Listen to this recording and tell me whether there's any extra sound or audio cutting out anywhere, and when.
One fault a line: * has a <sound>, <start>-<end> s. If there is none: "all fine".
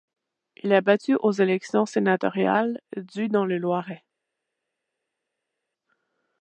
all fine